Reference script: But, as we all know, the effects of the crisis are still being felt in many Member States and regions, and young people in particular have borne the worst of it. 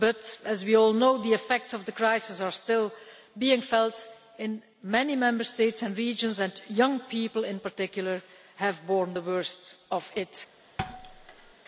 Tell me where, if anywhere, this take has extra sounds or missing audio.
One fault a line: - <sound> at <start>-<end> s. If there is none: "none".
- thud at 10.8-11.5 s